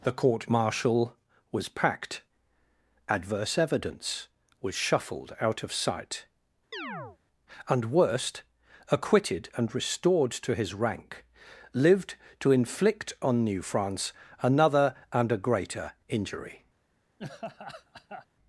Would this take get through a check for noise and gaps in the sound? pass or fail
fail